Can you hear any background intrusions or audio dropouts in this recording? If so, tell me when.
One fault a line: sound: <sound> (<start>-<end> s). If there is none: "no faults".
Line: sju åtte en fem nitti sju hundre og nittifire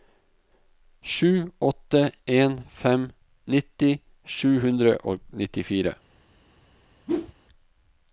sound: whoosh (7.1-7.3 s)